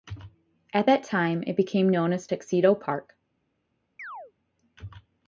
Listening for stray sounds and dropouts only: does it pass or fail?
fail